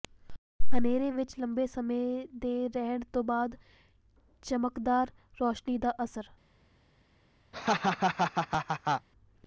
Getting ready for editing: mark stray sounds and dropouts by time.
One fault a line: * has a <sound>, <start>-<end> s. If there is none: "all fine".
* has a laugh, 7.5-9.1 s